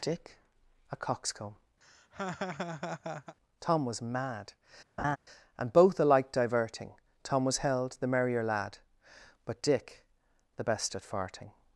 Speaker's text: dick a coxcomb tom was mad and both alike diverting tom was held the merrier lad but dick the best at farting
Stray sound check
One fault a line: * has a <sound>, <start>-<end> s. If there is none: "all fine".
* has a laugh, 1.8-3.4 s
* has a laugh, 5.0-5.2 s